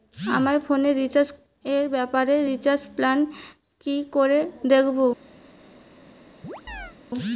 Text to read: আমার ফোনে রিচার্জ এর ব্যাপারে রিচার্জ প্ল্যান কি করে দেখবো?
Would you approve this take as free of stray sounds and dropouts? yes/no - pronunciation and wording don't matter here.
no